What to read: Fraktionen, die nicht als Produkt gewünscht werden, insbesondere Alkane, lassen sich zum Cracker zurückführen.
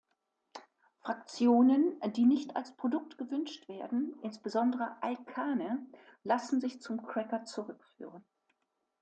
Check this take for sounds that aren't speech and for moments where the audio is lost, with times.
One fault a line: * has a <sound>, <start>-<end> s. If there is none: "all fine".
all fine